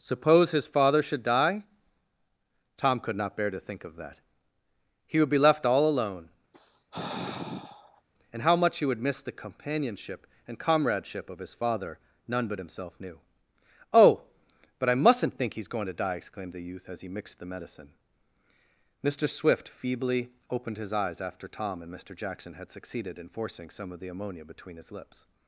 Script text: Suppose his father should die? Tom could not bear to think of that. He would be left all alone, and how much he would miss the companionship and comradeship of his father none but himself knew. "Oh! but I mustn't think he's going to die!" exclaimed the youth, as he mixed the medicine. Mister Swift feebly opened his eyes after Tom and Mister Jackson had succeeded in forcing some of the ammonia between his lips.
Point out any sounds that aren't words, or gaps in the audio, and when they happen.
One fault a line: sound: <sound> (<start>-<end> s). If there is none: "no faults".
sound: sigh (6.5-8.0 s)